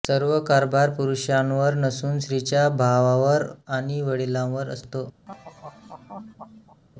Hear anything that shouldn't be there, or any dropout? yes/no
yes